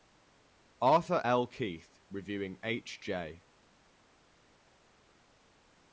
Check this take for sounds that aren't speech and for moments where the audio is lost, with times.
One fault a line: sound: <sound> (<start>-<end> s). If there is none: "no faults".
no faults